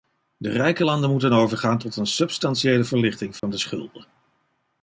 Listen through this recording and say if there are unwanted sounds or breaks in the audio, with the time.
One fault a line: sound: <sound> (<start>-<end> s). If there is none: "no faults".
sound: dropout (3.4-3.4 s)